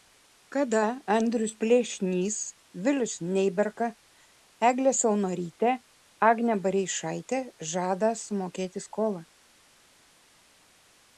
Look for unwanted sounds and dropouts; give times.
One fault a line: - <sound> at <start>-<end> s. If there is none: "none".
none